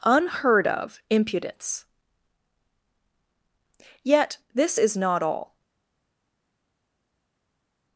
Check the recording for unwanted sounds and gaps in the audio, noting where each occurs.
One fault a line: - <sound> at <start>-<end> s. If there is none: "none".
none